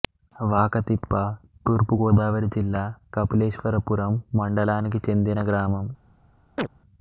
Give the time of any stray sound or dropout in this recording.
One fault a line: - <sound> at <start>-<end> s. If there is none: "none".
- chirp at 6.6-6.7 s